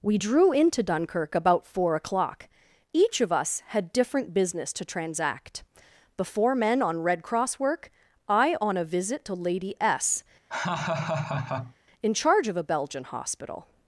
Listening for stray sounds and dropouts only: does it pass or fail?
fail